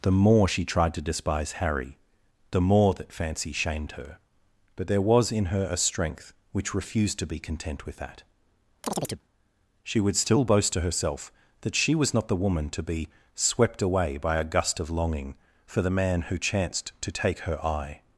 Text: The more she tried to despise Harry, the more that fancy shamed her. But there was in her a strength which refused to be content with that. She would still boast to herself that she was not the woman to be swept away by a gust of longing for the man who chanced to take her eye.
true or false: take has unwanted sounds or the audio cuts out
true